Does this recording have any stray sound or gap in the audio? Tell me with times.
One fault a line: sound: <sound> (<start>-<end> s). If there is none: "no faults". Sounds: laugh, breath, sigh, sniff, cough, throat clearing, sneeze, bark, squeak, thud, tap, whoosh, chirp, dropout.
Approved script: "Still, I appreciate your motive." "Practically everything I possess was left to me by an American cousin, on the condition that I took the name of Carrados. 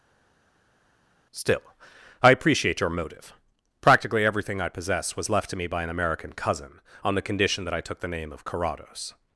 no faults